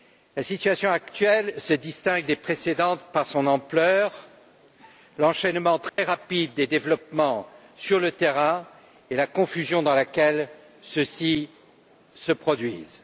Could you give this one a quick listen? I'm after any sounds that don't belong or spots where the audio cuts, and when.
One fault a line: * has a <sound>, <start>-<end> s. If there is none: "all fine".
* has a dropout, 5.9-6.0 s